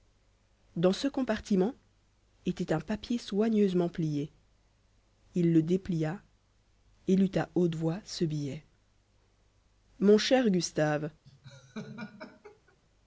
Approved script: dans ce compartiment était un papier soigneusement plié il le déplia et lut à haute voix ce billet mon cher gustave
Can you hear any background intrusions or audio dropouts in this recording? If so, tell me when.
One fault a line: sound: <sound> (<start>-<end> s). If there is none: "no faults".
sound: laugh (11.2-12.8 s)